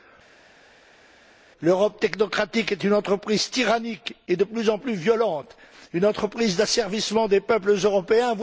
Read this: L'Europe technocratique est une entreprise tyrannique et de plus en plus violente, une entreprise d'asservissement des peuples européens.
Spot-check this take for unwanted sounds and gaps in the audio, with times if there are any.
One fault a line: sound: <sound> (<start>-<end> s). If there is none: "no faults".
no faults